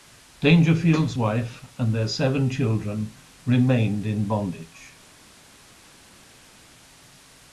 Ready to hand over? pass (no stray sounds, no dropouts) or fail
pass